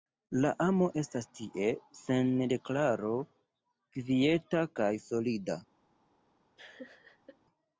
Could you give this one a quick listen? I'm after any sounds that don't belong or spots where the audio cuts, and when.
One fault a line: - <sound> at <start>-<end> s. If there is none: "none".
- laugh at 6.6-7.4 s